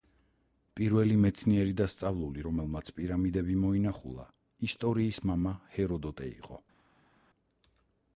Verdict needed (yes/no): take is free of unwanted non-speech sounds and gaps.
yes